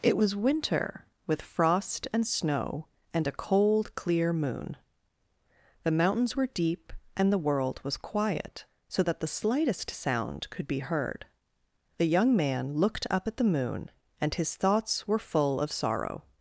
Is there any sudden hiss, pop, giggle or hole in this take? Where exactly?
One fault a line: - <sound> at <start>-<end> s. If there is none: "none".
none